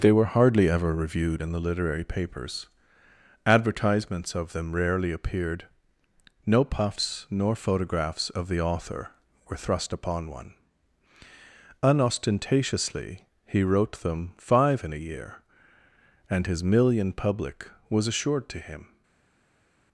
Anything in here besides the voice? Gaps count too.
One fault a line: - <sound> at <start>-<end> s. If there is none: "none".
none